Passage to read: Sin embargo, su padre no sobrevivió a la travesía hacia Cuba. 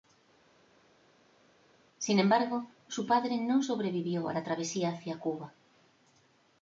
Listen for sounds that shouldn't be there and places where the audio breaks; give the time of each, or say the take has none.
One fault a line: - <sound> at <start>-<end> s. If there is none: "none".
none